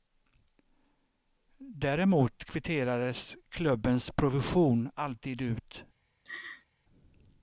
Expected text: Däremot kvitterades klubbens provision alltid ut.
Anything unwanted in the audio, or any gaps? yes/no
yes